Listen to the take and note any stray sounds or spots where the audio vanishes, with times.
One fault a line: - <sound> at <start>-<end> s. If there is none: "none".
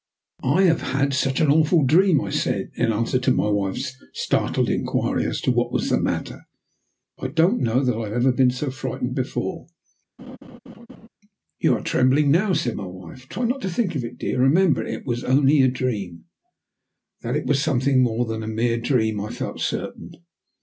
- laugh at 10.2-11.1 s